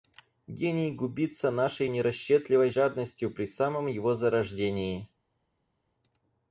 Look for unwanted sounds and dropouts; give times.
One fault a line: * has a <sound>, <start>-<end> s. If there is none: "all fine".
all fine